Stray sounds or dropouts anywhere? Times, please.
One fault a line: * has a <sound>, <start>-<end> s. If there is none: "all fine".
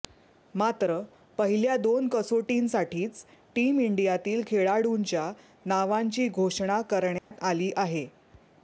* has a dropout, 7.2-7.3 s